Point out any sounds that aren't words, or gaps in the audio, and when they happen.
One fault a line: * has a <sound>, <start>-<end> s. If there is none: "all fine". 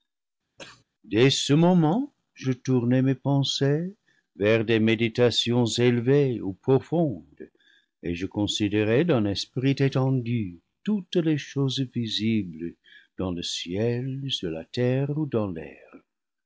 * has a cough, 0.6-0.8 s